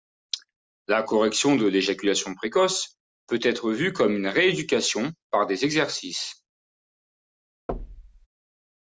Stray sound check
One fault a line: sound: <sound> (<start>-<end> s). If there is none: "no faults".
sound: thud (7.7-8.3 s)